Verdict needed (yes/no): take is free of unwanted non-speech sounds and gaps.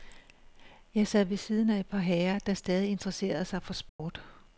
no